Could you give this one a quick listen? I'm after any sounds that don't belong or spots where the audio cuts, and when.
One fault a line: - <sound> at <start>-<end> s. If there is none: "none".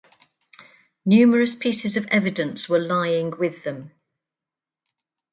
none